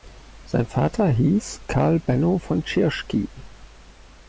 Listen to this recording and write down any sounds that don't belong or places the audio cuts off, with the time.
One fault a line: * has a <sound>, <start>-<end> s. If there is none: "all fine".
all fine